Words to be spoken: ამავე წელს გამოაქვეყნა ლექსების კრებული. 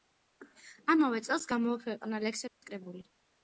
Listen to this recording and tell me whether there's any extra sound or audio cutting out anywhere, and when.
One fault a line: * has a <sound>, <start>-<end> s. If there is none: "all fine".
* has a dropout, 2.5-2.6 s